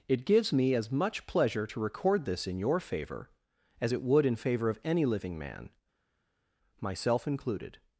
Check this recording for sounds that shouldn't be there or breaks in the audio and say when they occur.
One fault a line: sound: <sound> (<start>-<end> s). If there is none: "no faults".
no faults